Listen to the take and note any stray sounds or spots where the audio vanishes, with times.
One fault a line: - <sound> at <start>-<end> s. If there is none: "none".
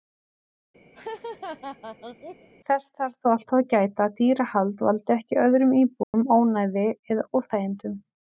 - laugh at 0.9-2.5 s
- dropout at 6.0-6.1 s